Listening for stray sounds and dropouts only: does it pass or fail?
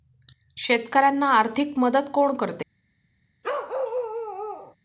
fail